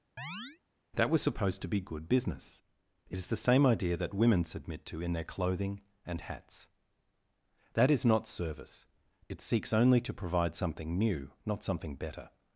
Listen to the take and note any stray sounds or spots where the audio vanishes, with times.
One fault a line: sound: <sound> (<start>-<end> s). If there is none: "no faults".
sound: chirp (0.2-0.6 s)